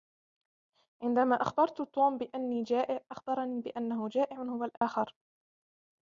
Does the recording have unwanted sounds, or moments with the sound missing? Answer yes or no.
yes